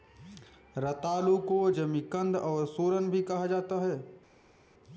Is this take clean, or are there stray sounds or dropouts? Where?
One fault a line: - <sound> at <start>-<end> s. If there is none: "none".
none